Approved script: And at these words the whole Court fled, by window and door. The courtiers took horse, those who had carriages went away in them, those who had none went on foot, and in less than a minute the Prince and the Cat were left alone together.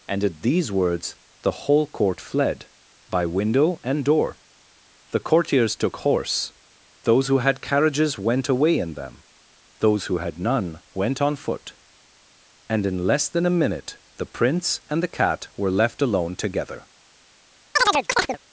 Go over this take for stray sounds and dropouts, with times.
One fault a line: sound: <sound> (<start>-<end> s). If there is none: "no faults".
sound: chirp (17.8-18.4 s)